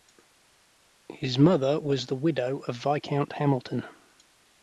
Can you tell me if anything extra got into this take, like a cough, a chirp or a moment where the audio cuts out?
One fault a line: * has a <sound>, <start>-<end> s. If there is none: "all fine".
all fine